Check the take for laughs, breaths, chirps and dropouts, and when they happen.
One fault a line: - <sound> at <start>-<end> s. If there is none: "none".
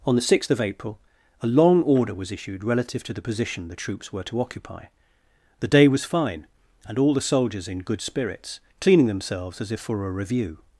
none